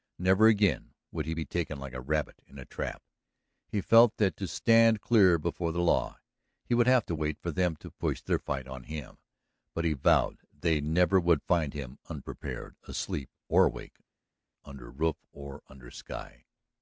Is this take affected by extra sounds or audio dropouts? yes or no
no